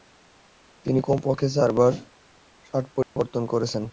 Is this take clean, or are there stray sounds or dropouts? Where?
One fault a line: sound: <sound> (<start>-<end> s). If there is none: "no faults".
sound: dropout (3.0-3.2 s)